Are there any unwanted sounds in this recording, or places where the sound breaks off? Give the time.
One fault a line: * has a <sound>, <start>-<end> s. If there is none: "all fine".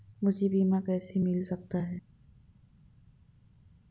all fine